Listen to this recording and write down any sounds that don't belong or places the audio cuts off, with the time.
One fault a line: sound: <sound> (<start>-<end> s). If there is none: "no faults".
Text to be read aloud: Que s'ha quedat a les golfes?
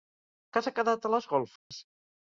sound: dropout (1.6-1.7 s)